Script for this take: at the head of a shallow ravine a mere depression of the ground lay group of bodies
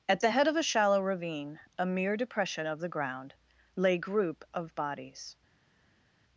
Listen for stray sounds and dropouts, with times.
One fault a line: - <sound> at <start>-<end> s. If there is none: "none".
none